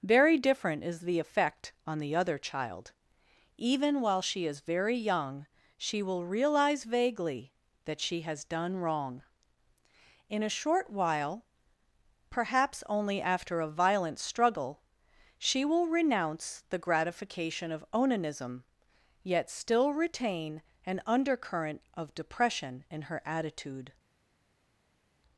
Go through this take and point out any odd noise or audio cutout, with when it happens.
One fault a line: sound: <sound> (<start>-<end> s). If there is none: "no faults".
no faults